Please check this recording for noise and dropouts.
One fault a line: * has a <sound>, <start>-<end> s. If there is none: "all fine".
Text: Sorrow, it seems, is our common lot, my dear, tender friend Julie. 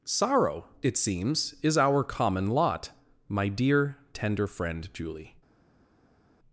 all fine